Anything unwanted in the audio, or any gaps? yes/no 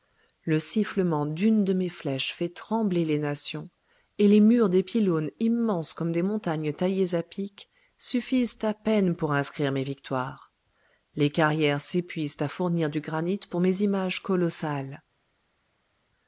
no